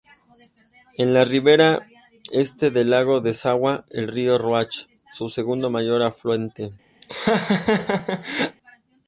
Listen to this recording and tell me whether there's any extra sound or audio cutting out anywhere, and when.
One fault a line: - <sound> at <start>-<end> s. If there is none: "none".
- laugh at 7.0-8.6 s